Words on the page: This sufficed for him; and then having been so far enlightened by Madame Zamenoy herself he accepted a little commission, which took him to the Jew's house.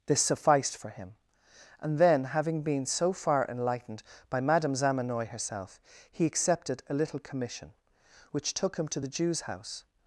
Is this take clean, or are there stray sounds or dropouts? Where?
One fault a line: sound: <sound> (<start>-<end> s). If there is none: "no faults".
no faults